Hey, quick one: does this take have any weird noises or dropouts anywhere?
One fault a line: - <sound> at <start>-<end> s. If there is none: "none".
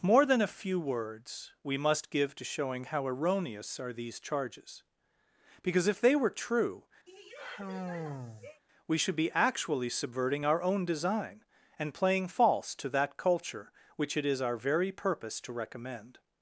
- sigh at 7.1-8.6 s